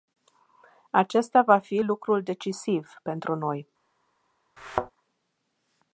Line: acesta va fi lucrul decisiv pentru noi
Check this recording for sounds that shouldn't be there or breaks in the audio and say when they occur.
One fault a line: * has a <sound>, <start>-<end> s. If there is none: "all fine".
* has a thud, 4.6-4.9 s